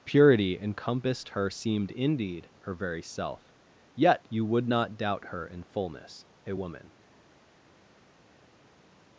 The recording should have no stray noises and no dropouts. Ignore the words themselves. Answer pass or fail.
pass